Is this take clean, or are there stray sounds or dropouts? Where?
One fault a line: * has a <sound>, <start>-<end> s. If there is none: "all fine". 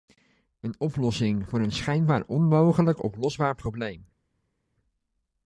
all fine